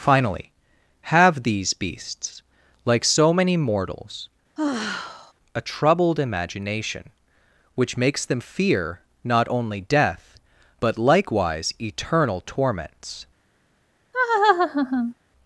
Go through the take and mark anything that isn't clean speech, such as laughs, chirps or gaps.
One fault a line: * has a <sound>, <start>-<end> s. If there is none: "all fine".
* has a sigh, 4.6-5.3 s
* has a laugh, 14.1-15.1 s